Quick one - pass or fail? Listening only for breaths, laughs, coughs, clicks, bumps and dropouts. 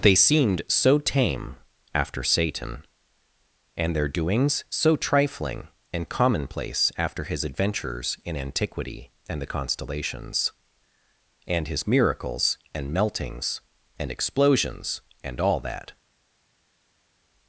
pass